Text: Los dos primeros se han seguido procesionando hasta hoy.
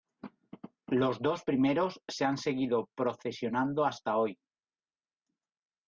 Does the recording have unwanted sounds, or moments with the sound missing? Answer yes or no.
no